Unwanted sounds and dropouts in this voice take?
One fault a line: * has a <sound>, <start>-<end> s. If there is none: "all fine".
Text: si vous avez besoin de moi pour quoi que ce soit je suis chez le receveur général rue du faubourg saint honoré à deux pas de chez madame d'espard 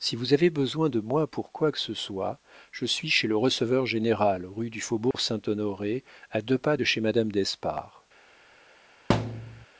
* has a dropout, 5.1-5.1 s
* has a thud, 9.1-9.7 s